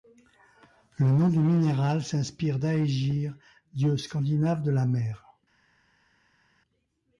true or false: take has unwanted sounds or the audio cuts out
false